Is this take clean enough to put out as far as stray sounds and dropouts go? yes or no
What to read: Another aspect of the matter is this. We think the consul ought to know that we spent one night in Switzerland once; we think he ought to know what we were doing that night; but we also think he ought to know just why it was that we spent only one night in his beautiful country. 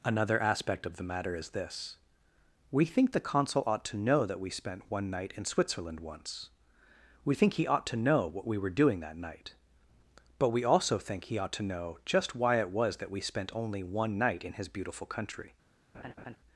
no